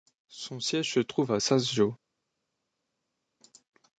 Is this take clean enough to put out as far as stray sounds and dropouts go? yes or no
yes